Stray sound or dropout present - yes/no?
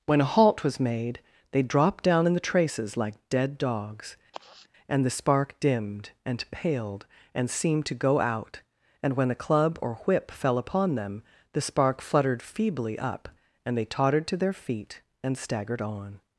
yes